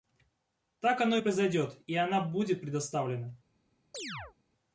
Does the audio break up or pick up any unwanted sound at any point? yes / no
yes